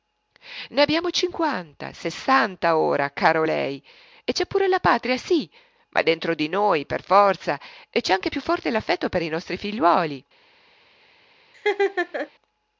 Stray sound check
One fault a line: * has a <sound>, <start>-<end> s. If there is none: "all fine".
* has a laugh, 11.5-12.3 s